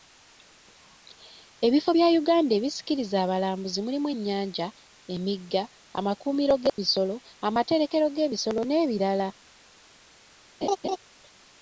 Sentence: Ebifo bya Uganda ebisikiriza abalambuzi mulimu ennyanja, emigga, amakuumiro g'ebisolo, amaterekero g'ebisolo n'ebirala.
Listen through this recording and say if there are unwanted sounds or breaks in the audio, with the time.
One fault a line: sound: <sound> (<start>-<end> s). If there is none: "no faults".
sound: dropout (6.7-6.8 s)
sound: laugh (10.6-11.0 s)